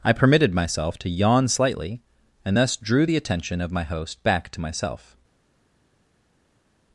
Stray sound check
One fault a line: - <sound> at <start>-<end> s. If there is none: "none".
none